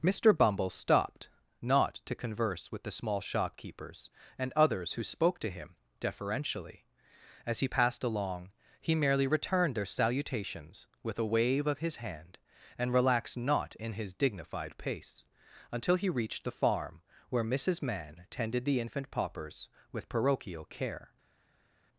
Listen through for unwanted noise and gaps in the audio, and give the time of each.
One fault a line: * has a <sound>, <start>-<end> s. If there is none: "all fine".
all fine